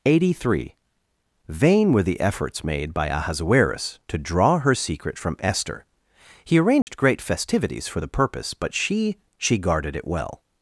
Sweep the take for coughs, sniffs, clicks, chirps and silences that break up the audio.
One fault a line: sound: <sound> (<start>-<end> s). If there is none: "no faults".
sound: dropout (6.8-6.9 s)